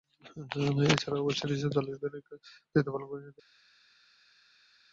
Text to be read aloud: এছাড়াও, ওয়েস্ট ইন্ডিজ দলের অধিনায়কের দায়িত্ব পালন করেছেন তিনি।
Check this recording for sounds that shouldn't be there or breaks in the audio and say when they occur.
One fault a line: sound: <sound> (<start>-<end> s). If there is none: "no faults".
no faults